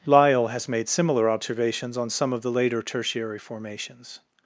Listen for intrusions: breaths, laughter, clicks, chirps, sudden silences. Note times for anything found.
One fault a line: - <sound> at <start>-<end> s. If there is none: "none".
none